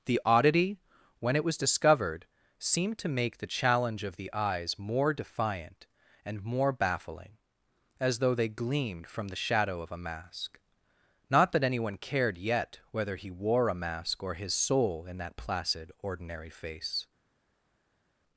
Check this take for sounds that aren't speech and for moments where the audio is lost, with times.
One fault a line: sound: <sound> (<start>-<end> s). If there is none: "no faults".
no faults